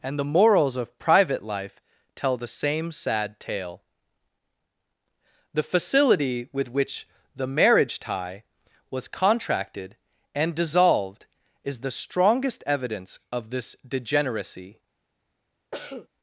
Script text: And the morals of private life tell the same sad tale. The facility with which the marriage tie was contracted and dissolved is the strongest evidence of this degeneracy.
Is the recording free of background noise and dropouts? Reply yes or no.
no